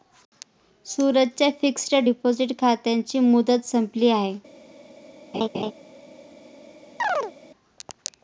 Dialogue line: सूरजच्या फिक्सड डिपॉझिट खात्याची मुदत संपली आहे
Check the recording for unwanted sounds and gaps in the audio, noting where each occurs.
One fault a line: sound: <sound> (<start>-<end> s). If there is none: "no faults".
sound: laugh (5.3-5.7 s)
sound: chirp (7.0-7.3 s)